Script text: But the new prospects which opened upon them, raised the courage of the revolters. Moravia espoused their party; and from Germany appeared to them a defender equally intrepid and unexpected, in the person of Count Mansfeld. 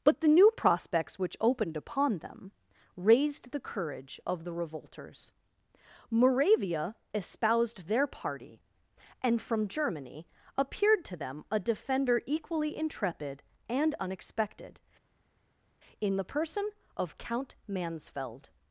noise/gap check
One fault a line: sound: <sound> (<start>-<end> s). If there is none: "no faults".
no faults